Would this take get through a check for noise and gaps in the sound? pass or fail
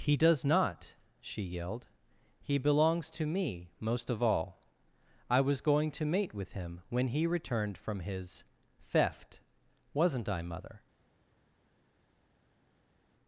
pass